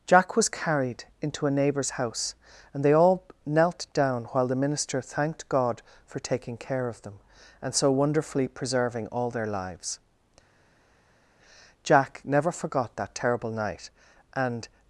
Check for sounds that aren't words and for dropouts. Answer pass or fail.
pass